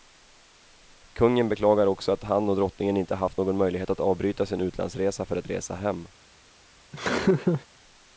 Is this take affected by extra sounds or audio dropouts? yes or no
yes